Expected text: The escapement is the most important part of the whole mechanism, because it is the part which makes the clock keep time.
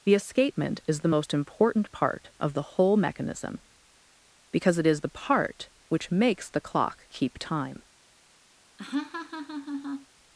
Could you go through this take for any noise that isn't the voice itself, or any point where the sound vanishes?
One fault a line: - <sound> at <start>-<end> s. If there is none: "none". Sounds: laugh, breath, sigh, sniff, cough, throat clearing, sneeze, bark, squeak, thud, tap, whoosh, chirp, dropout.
- laugh at 8.8-10.1 s